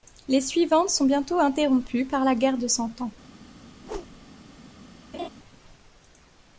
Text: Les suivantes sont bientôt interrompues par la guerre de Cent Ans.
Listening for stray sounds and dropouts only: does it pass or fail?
fail